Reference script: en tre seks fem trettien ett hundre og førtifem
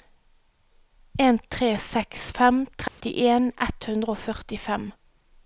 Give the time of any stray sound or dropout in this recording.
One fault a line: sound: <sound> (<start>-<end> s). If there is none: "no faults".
sound: dropout (2.9-3.0 s)